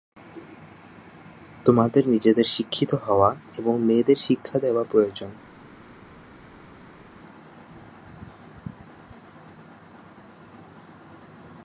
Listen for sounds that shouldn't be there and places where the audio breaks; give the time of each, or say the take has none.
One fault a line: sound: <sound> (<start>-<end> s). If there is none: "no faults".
no faults